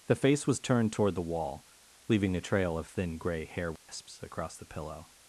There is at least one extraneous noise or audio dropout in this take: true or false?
true